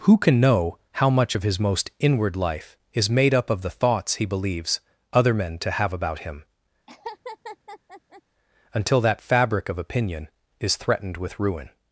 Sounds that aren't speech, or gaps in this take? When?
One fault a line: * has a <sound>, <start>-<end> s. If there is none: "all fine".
* has a laugh, 6.9-8.2 s